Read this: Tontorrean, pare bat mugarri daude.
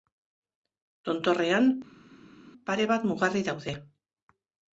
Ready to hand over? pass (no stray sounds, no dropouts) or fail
pass